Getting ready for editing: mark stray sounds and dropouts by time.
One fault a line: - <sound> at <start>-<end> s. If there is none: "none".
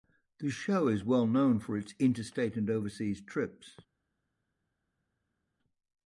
none